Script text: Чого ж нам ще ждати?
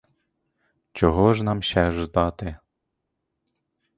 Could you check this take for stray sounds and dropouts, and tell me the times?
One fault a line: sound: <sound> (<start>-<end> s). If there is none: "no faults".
no faults